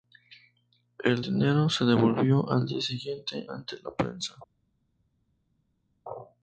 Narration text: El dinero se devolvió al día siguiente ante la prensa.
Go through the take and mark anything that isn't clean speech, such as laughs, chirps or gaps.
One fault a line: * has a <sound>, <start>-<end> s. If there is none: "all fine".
all fine